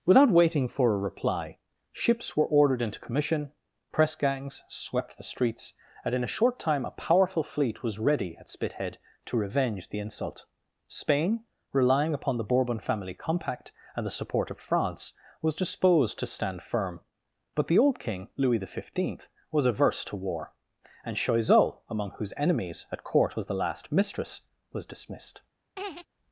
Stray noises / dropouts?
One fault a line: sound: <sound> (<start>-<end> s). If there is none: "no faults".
sound: laugh (25.8-26.1 s)